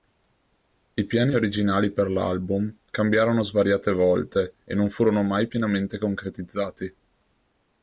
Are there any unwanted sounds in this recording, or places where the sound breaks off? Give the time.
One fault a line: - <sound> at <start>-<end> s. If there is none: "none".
none